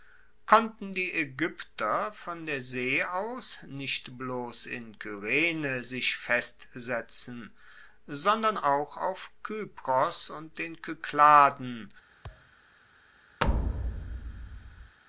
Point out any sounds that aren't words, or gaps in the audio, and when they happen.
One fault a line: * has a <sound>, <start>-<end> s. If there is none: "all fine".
* has a thud, 12.2-12.5 s
* has a thud, 13.4-15.0 s